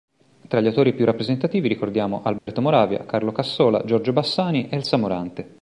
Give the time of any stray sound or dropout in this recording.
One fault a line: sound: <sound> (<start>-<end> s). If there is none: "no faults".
sound: dropout (2.4-2.5 s)